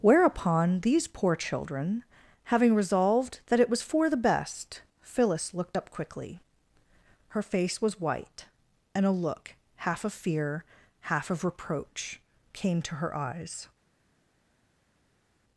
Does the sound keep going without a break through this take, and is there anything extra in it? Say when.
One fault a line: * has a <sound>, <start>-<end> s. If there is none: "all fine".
all fine